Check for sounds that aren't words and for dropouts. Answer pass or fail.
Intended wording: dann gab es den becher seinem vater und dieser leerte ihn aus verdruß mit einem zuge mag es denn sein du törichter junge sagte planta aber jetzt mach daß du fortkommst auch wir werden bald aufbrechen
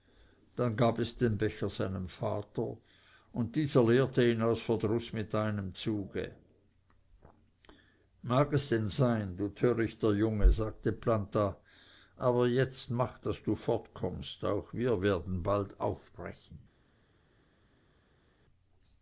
pass